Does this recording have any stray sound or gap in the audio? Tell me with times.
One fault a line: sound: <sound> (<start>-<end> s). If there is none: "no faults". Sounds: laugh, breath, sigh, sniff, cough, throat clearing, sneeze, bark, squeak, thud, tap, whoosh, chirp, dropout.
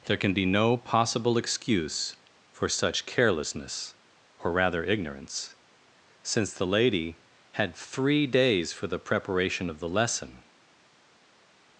no faults